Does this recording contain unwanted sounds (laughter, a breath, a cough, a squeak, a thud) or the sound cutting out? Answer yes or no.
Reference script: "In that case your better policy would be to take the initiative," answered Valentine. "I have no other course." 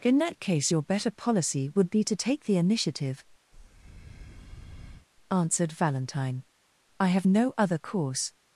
yes